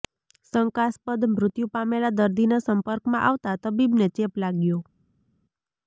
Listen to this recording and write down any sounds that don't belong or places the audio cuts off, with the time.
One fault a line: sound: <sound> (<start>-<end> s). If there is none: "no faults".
no faults